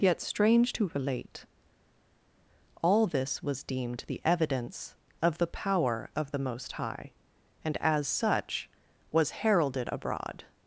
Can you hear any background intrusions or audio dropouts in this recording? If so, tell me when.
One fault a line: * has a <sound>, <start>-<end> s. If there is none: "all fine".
all fine